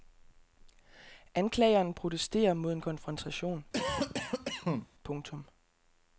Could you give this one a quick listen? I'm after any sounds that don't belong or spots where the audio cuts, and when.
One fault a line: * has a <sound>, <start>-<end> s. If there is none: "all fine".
* has a cough, 3.7-4.9 s